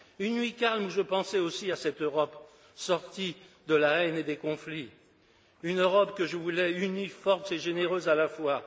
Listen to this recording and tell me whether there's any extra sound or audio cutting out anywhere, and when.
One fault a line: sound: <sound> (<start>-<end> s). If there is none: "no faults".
no faults